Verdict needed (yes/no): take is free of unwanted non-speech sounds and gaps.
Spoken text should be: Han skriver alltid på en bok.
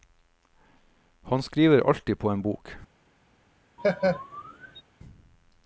no